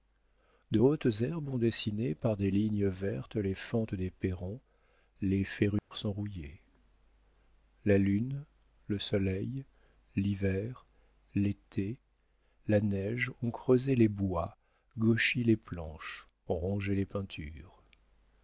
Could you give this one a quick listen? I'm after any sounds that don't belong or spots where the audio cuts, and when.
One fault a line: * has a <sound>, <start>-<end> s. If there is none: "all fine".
* has a dropout, 5.8-5.9 s